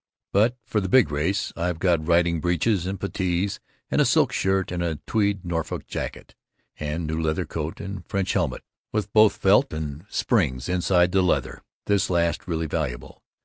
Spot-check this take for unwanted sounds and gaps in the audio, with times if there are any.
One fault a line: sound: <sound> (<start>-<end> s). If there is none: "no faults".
no faults